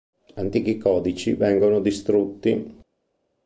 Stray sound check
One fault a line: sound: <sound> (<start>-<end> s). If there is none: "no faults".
no faults